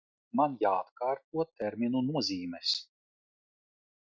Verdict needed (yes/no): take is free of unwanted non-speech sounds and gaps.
yes